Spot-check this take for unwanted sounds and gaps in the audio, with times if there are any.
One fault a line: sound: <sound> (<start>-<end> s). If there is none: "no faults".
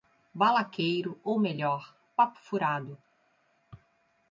no faults